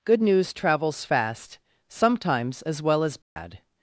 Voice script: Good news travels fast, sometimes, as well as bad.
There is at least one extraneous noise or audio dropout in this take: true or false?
true